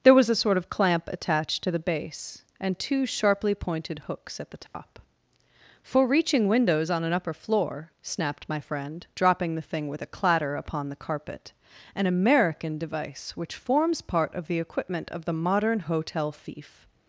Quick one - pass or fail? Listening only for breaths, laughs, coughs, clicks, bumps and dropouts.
fail